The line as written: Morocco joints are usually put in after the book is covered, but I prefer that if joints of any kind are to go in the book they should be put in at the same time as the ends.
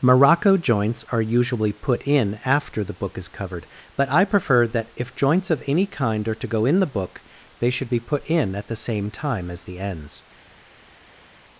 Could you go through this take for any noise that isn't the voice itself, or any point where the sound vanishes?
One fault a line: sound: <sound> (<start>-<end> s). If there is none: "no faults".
no faults